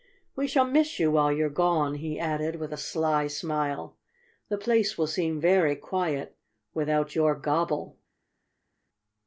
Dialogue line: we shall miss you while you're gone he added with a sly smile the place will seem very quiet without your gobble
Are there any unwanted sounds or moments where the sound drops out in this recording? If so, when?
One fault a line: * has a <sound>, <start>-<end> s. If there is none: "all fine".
all fine